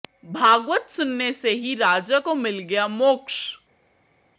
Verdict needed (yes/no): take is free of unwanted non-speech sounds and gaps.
yes